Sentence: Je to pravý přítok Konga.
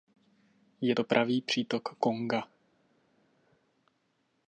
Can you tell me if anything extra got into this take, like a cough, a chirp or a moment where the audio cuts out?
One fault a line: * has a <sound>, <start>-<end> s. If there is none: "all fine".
all fine